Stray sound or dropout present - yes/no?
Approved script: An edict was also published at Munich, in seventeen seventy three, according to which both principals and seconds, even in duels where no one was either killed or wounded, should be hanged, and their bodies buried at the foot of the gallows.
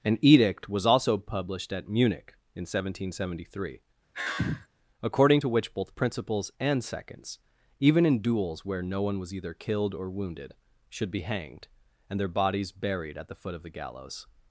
yes